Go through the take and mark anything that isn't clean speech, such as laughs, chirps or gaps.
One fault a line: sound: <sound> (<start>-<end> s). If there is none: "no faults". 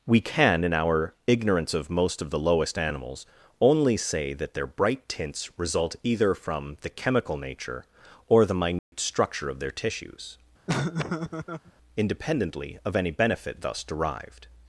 sound: dropout (8.8-8.9 s)
sound: laugh (10.7-11.7 s)